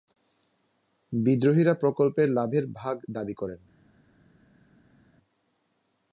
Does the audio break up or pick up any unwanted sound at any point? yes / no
no